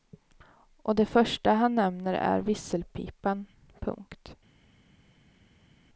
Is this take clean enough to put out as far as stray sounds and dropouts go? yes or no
yes